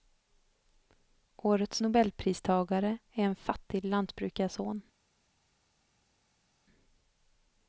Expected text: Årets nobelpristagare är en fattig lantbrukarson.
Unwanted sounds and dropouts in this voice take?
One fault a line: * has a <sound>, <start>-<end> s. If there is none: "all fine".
all fine